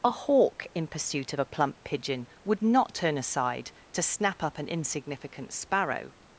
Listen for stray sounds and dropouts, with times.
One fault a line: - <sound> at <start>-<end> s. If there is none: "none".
none